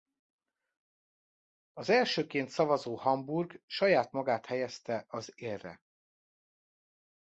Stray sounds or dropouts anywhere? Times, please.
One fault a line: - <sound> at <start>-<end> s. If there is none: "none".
none